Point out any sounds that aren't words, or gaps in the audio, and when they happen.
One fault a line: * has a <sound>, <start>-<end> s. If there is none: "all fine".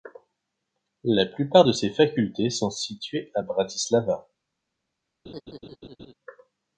* has a laugh, 5.2-6.1 s